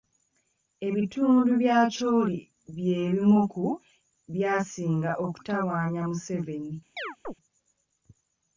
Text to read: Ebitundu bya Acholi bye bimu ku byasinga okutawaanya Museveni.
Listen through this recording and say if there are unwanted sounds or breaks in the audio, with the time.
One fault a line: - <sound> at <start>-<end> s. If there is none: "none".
- chirp at 7.0-7.3 s